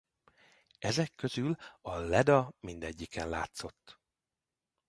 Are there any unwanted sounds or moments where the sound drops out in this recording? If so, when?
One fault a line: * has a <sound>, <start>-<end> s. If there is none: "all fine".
all fine